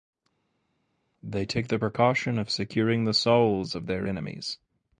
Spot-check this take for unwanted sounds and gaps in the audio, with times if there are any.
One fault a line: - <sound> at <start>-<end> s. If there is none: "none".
none